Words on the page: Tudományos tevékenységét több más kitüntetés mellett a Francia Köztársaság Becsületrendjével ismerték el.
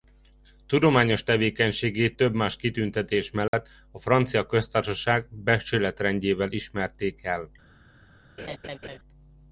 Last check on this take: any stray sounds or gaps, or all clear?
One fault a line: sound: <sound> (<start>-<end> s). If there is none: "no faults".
sound: dropout (3.5-3.5 s)
sound: laugh (8.4-9.0 s)